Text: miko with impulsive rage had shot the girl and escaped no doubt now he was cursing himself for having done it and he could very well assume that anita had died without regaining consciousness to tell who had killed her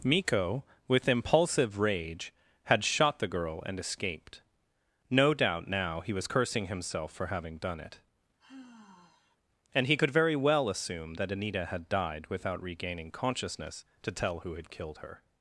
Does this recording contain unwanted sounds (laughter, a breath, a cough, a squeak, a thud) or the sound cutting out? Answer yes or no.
yes